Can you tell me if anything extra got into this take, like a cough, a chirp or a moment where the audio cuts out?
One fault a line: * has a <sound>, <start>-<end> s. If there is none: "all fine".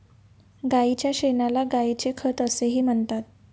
all fine